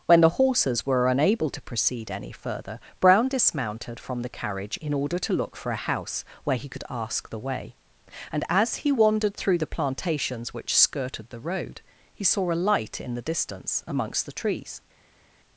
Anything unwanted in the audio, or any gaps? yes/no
no